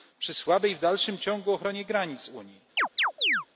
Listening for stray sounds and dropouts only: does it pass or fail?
fail